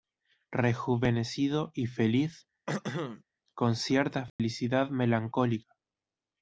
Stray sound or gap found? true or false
true